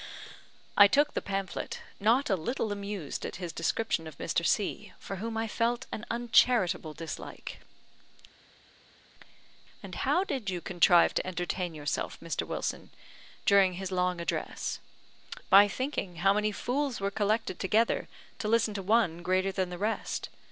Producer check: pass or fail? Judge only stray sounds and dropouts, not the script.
pass